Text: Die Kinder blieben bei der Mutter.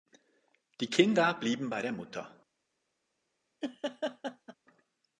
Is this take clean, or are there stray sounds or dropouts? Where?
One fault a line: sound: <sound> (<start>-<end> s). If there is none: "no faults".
sound: laugh (3.6-4.6 s)